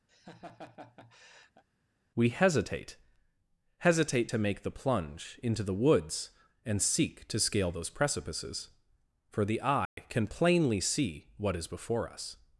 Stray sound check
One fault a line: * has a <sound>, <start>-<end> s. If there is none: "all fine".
* has a laugh, 0.1-1.6 s
* has a dropout, 9.9-10.0 s